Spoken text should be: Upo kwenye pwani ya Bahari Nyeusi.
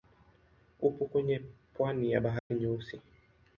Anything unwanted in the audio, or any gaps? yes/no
yes